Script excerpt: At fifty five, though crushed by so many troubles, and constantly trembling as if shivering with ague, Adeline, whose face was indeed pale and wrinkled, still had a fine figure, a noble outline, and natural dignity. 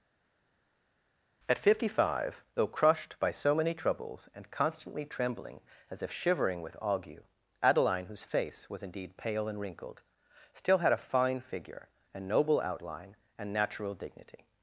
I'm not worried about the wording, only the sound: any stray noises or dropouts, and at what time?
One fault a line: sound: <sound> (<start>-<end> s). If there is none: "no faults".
no faults